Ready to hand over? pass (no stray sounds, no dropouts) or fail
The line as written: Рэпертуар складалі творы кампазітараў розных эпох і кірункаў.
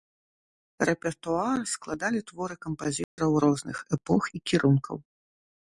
fail